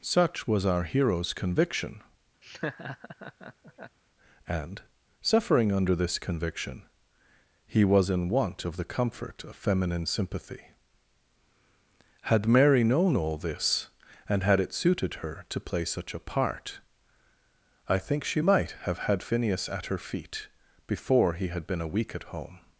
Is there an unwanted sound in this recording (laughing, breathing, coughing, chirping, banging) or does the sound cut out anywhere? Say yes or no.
yes